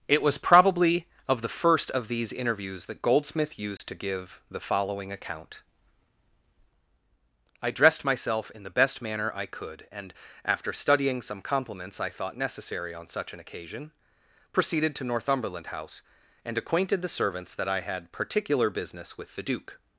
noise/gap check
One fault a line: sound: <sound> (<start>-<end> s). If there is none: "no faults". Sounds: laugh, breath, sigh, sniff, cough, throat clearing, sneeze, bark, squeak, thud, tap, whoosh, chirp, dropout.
sound: dropout (3.8-3.8 s)